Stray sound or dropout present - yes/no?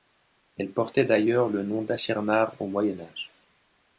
no